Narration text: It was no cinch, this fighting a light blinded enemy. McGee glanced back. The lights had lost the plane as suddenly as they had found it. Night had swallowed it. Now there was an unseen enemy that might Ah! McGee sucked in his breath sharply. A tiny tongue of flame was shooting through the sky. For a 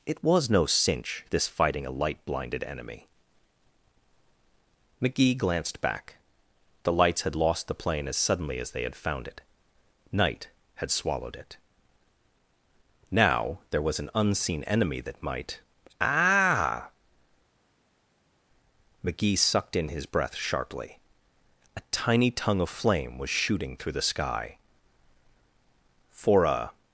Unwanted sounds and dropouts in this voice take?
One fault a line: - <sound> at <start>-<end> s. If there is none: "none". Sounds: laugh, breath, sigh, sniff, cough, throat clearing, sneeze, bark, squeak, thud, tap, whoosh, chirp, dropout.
none